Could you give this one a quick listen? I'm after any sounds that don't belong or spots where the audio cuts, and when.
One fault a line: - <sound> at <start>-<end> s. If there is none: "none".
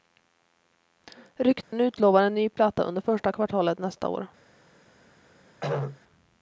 - dropout at 1.6-1.7 s
- throat clearing at 5.6-6.0 s